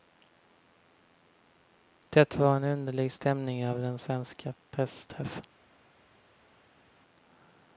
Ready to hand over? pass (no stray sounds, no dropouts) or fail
pass